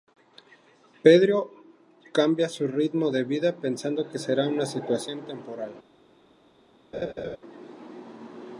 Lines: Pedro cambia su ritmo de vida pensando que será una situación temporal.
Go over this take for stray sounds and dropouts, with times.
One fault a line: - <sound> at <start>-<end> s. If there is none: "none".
- laugh at 6.9-7.4 s